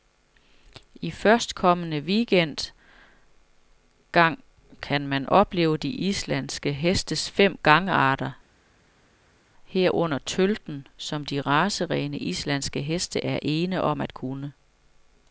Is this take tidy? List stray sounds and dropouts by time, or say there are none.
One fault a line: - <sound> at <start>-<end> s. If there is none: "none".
none